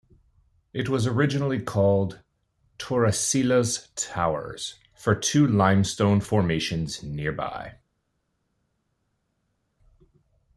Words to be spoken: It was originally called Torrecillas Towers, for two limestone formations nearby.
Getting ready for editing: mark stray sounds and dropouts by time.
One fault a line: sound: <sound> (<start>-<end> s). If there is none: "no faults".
no faults